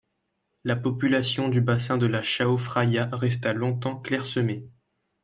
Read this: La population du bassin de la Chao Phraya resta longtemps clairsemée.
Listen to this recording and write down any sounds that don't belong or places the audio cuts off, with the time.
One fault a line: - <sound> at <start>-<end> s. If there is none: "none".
none